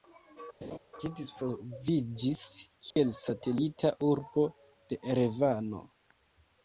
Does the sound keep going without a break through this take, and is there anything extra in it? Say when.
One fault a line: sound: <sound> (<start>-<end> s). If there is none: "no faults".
sound: laugh (0.6-0.8 s)
sound: dropout (2.9-3.0 s)